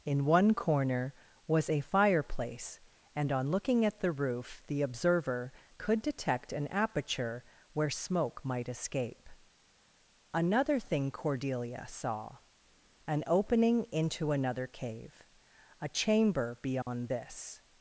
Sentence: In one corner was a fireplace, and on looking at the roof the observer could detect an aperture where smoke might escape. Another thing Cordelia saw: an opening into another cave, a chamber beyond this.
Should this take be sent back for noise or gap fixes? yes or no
yes